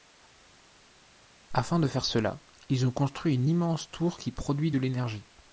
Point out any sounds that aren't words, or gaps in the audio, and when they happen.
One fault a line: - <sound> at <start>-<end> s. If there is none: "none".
none